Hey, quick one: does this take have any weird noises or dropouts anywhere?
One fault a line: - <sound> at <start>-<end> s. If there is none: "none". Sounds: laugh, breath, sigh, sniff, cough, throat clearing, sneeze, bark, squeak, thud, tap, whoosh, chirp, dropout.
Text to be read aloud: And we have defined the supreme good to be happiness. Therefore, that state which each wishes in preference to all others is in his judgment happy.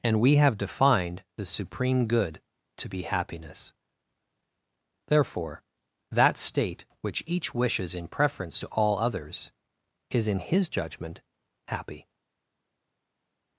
none